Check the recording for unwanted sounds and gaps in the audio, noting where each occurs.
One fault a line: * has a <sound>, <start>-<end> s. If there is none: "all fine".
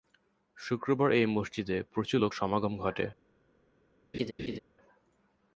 * has a laugh, 4.1-4.6 s